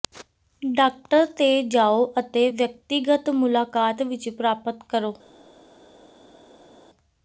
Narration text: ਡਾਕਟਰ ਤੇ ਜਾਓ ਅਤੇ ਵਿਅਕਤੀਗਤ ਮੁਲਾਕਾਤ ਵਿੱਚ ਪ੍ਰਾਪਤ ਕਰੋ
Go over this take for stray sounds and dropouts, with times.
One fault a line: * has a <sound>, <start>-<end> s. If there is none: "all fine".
all fine